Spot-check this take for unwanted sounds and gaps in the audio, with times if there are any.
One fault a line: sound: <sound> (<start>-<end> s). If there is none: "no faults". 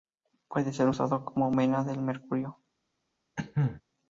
sound: cough (3.4-3.8 s)